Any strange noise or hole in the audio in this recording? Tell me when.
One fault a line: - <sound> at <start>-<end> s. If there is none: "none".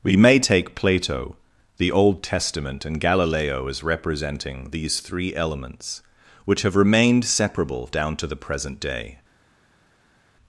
none